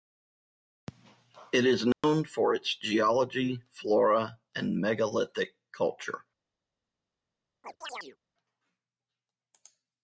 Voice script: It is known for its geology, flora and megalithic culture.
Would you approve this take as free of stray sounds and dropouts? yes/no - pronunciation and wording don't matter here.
no